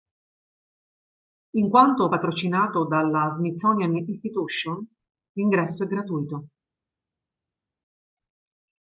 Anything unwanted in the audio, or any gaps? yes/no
no